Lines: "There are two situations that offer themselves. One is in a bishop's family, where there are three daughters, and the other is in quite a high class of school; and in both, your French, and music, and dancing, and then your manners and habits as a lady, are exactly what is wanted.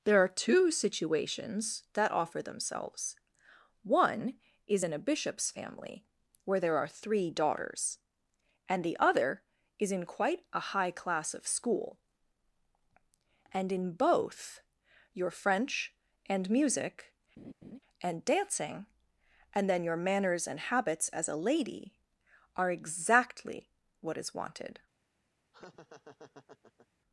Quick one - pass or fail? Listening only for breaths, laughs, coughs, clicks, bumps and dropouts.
fail